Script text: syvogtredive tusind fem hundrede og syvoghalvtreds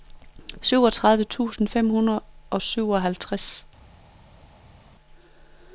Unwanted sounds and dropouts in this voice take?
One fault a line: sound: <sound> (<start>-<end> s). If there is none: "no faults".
no faults